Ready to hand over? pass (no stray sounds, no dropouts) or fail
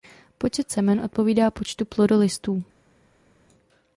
pass